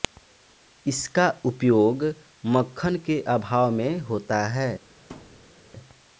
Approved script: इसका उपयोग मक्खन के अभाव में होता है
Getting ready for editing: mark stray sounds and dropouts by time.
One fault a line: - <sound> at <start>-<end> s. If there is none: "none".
- thud at 5.1-5.5 s